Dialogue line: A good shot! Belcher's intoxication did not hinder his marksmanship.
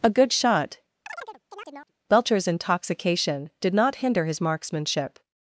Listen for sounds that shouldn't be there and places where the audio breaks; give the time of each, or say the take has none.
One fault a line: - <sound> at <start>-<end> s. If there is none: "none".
- chirp at 1.1-1.9 s